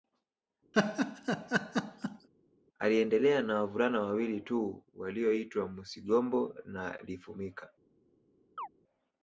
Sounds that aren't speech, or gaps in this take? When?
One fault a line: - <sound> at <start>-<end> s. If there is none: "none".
- laugh at 0.7-2.3 s
- chirp at 8.6-8.7 s